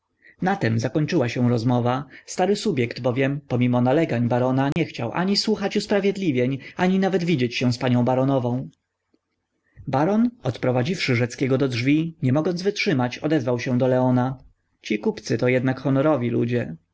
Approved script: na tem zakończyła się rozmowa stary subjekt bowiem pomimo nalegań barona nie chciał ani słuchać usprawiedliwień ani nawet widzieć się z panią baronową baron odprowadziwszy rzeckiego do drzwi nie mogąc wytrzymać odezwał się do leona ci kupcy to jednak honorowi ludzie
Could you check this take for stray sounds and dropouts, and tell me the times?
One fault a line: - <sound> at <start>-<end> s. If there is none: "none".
- dropout at 4.7-4.8 s